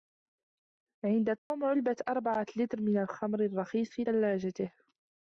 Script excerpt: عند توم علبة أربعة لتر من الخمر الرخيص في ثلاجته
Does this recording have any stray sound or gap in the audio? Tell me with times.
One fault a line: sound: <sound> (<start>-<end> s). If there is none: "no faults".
sound: dropout (1.4-1.5 s)